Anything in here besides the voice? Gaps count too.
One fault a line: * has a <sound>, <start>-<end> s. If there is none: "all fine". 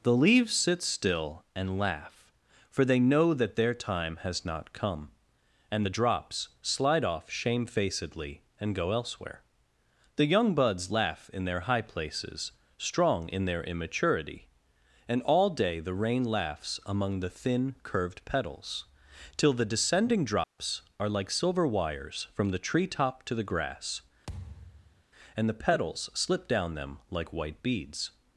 * has a dropout, 20.4-20.6 s
* has a thud, 24.3-25.0 s